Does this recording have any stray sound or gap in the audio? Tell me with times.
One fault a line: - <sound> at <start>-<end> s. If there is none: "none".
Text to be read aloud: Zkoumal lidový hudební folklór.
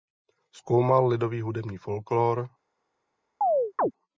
- chirp at 3.4-3.9 s